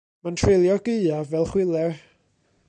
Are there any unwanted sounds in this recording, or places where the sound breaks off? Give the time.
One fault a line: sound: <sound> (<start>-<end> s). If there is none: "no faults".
no faults